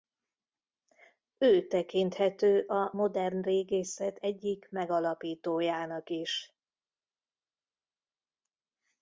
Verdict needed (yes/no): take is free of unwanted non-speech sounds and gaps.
yes